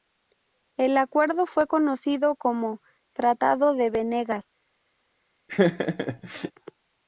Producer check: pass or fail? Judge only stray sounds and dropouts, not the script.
fail